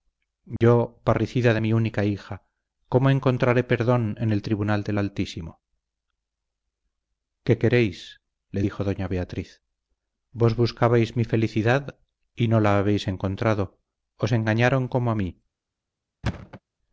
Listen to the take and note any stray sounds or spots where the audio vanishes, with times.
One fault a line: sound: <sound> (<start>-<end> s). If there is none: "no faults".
sound: dropout (0.6-0.6 s)
sound: thud (16.2-16.6 s)